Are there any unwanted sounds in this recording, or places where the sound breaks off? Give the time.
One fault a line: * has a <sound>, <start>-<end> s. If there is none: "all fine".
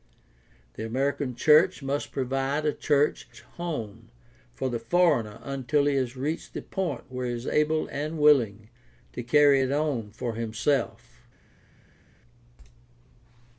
all fine